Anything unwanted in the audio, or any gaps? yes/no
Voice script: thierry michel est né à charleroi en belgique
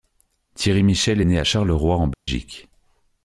yes